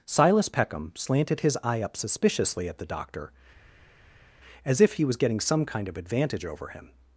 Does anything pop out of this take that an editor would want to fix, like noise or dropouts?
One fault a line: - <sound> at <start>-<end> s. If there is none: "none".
none